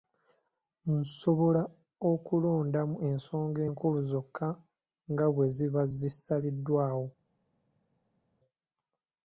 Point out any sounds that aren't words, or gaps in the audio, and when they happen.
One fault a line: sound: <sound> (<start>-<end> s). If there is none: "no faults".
no faults